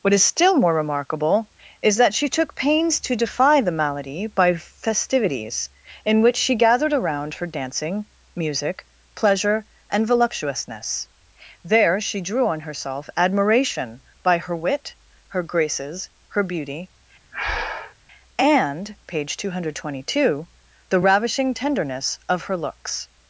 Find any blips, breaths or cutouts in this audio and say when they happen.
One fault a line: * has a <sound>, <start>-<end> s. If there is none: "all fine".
* has a breath, 17.3-17.9 s